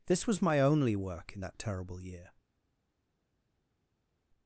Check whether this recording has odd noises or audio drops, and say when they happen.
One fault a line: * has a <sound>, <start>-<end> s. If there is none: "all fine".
all fine